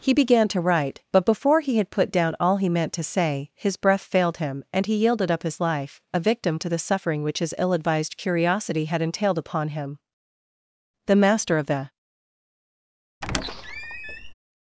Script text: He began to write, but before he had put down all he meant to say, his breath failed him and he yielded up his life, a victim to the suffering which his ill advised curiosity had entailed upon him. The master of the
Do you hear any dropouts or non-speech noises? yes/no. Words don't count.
yes